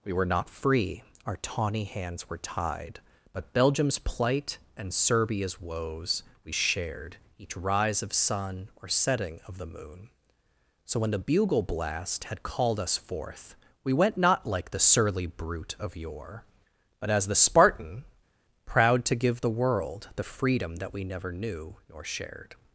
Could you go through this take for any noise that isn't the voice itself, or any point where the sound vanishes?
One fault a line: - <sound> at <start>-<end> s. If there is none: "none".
none